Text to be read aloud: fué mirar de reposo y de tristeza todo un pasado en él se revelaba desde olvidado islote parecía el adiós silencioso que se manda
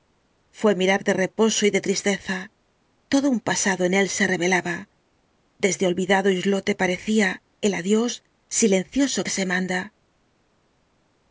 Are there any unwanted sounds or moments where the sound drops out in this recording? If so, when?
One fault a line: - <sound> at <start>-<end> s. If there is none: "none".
none